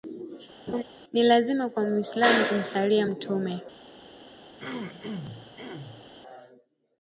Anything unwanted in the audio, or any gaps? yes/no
yes